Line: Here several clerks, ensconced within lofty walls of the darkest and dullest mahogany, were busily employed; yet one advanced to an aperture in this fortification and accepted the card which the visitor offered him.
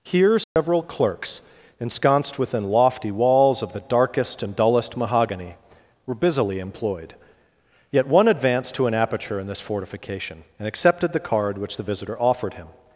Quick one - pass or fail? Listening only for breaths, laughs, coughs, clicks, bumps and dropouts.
fail